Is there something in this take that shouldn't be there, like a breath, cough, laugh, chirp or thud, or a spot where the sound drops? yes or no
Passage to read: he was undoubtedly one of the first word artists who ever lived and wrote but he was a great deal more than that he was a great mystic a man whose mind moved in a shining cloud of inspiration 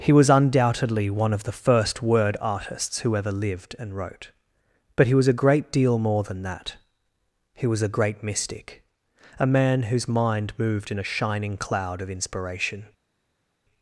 no